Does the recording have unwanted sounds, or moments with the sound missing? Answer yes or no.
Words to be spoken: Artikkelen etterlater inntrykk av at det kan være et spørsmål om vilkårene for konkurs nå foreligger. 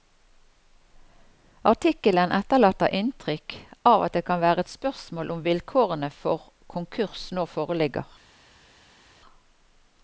no